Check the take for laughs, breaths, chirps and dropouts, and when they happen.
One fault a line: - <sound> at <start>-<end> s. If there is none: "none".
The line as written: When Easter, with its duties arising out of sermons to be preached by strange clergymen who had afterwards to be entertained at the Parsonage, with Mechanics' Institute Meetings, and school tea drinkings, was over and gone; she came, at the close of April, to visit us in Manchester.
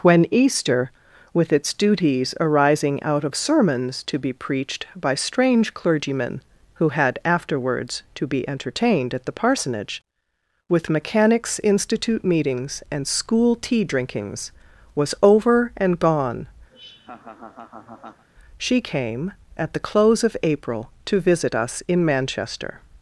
- laugh at 16.7-18.2 s